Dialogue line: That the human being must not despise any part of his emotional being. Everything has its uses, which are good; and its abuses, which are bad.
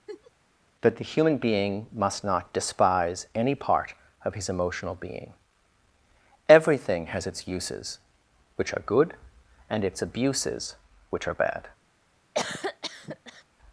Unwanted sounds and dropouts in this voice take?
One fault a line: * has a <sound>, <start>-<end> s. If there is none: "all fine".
* has a laugh, 0.1-0.3 s
* has a cough, 12.3-13.4 s